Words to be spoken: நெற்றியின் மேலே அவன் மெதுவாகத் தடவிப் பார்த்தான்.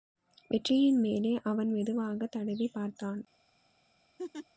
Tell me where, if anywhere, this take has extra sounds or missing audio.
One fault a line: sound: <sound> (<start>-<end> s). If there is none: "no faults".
sound: laugh (4.2-4.5 s)